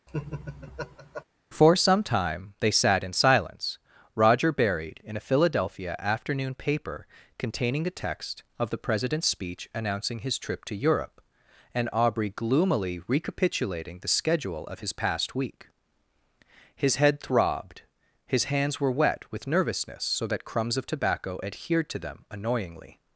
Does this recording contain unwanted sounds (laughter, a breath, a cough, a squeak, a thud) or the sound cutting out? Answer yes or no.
yes